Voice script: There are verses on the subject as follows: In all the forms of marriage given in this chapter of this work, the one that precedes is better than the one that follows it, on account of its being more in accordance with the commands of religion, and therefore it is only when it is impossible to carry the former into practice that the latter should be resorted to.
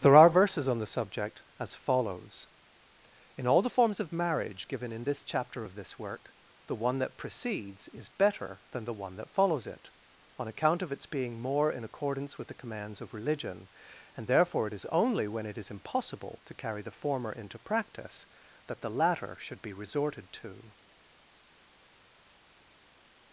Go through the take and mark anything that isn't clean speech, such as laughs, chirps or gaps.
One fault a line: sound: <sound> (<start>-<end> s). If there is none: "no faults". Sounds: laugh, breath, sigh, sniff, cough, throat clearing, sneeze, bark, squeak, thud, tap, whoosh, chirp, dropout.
no faults